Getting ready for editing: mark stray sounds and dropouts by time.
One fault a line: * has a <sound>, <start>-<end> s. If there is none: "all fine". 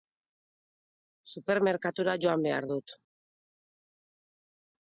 all fine